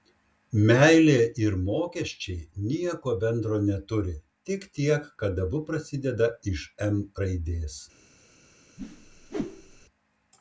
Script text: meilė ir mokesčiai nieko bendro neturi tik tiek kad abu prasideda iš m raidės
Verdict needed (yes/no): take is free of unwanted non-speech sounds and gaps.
no